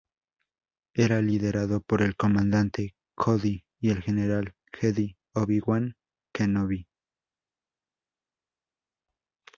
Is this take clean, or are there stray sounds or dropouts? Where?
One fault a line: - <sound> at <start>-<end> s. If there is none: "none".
none